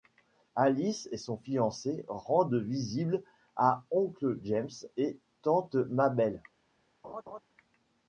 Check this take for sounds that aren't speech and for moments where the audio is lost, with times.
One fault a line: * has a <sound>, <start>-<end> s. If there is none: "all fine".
* has a laugh, 7.0-7.4 s